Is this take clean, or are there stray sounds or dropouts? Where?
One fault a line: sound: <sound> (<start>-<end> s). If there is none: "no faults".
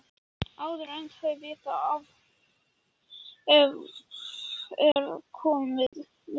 sound: dropout (4.9-5.0 s)
sound: dropout (5.9-5.9 s)